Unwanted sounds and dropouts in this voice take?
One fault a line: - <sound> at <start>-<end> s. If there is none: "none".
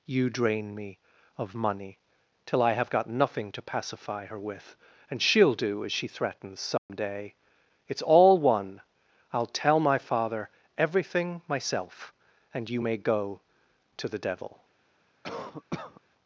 - dropout at 6.8-6.9 s
- cough at 15.2-16.0 s